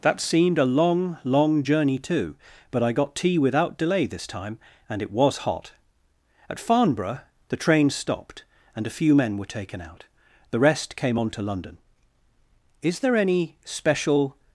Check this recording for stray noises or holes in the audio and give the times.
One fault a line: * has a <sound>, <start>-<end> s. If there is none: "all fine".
all fine